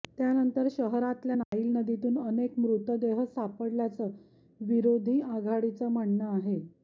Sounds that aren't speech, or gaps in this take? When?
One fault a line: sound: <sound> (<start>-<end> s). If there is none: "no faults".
sound: dropout (1.4-1.5 s)